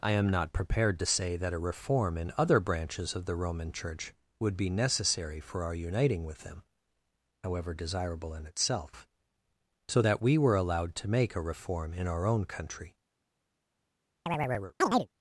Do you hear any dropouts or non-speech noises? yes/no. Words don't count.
yes